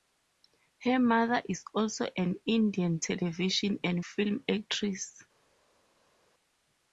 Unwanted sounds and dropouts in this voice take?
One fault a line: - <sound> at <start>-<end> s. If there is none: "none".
none